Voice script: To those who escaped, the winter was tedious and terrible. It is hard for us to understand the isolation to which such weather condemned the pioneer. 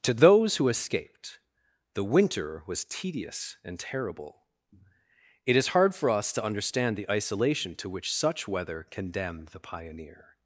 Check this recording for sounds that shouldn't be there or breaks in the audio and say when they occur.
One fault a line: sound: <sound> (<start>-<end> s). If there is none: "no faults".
no faults